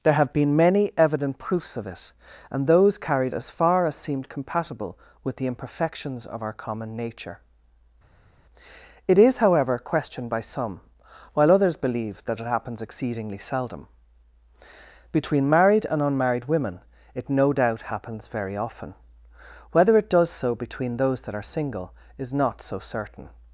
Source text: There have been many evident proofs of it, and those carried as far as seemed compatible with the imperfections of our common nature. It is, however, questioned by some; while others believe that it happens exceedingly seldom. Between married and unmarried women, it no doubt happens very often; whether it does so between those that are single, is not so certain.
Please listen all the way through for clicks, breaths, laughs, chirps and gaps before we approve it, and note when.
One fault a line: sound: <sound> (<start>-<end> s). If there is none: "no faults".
no faults